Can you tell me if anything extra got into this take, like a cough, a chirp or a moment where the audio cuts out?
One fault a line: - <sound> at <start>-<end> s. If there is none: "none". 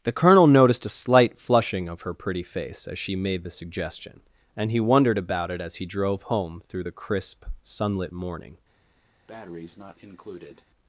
- breath at 9.3-10.6 s